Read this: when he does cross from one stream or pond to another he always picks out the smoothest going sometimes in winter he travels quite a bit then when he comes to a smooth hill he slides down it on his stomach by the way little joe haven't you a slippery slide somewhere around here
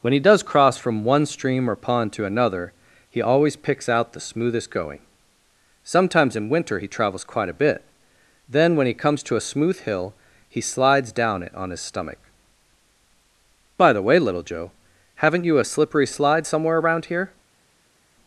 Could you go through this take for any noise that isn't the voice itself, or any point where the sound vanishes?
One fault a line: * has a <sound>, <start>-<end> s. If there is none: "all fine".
all fine